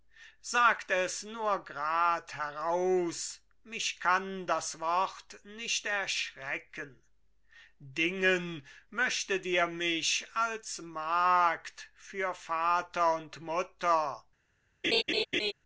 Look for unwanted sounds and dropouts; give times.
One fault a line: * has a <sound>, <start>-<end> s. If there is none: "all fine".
* has a laugh, 14.8-15.5 s